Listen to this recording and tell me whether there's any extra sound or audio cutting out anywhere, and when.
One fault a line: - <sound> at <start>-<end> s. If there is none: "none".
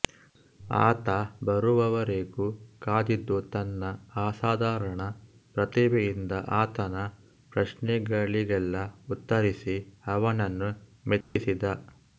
- dropout at 11.2-11.4 s